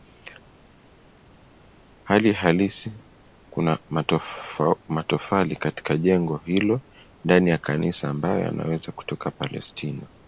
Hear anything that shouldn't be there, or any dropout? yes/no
no